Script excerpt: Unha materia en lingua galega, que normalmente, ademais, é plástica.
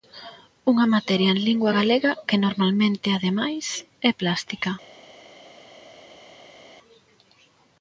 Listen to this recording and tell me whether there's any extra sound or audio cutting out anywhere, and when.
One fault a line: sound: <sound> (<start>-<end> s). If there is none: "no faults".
no faults